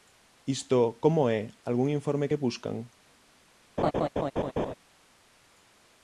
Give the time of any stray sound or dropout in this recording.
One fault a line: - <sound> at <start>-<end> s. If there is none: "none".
- laugh at 3.8-4.7 s